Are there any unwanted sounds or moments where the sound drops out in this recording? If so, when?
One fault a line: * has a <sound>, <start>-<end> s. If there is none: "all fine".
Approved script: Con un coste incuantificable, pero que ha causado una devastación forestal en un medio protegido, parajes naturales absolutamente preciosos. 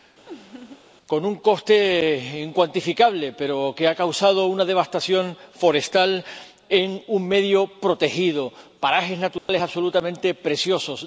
* has a laugh, 0.3-0.8 s
* has a dropout, 9.4-9.5 s